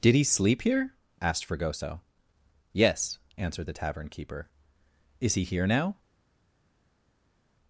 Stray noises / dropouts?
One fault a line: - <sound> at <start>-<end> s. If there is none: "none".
none